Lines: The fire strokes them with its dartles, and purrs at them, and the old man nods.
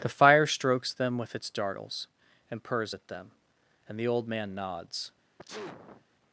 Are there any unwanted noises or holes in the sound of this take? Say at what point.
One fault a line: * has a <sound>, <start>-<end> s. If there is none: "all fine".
* has a sneeze, 5.4-6.1 s